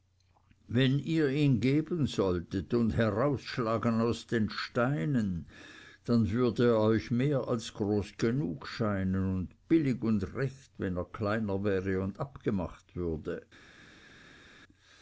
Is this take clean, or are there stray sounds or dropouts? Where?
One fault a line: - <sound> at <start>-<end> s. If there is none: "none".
none